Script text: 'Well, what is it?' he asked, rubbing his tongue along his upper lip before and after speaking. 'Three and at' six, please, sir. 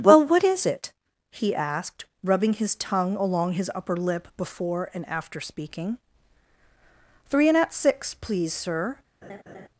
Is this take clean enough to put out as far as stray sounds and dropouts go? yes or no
no